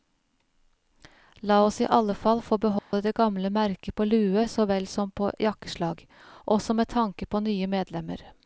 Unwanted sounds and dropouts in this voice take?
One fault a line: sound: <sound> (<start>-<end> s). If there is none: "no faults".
sound: dropout (2.8-2.9 s)